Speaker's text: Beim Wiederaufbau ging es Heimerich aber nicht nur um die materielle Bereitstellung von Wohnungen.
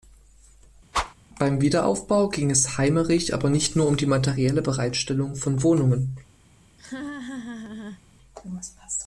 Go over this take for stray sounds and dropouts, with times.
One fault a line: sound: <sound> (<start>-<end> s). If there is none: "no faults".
sound: whoosh (0.9-1.1 s)
sound: laugh (6.8-8.0 s)